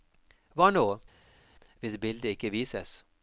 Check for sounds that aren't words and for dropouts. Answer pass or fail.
pass